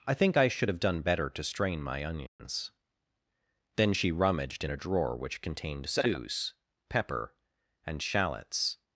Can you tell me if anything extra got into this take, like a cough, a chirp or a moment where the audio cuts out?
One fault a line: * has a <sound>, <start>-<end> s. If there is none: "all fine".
* has a dropout, 2.3-2.4 s